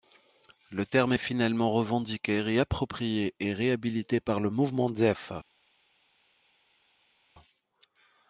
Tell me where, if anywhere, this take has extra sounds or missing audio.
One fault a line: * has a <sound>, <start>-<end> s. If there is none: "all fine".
all fine